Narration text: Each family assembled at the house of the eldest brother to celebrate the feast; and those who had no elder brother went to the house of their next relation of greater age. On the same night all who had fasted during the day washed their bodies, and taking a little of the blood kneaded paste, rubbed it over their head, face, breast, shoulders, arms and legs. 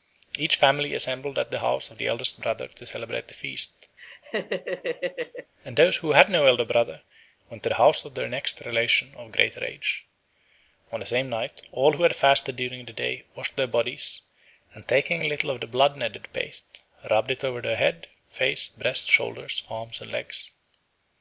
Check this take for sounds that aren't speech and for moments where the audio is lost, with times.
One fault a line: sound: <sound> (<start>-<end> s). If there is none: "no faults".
sound: laugh (4.0-5.5 s)